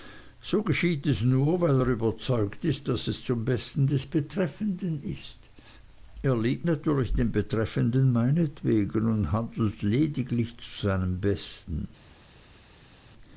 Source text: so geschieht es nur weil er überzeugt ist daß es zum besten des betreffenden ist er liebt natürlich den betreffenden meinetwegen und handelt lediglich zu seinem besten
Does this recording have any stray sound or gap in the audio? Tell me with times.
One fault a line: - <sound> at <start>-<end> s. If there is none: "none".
none